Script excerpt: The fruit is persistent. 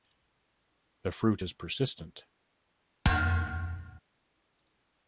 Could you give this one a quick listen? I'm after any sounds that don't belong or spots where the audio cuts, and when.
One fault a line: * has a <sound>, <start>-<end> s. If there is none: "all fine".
* has a thud, 3.0-4.0 s